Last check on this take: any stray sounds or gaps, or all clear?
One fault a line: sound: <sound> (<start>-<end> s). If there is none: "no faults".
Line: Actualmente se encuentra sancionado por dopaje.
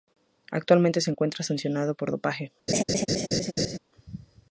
sound: laugh (2.7-3.8 s)